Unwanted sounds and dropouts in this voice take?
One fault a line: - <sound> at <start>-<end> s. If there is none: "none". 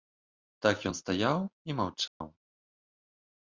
- dropout at 2.1-2.2 s